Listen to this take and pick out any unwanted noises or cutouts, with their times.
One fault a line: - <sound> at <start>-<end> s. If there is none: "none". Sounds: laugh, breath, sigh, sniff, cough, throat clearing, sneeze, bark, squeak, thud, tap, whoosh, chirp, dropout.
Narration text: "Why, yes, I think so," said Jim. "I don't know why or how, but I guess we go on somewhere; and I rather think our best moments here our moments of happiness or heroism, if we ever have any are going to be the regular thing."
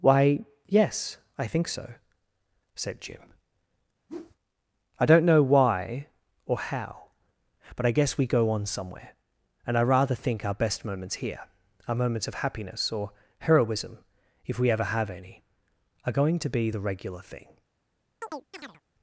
- whoosh at 4.1-4.4 s
- chirp at 18.2-18.8 s